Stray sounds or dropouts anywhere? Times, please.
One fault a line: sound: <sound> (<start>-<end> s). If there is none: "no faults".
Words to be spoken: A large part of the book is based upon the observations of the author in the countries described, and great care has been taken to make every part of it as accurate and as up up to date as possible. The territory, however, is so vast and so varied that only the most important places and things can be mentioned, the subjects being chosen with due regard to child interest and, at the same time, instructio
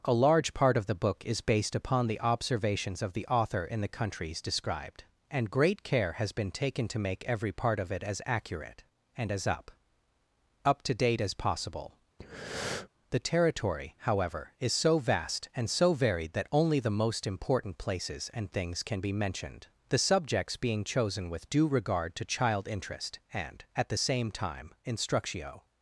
sound: breath (12.2-12.9 s)